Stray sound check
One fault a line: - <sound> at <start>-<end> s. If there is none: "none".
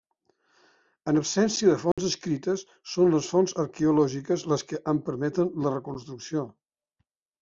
- dropout at 1.9-2.0 s